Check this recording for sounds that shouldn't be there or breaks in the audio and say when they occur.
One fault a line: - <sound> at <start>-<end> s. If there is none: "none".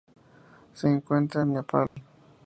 - dropout at 1.9-2.0 s